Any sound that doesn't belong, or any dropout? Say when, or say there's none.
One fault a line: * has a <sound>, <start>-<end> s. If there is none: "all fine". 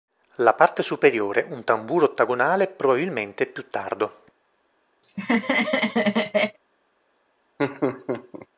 * has a laugh, 5.0-6.6 s
* has a laugh, 7.6-8.5 s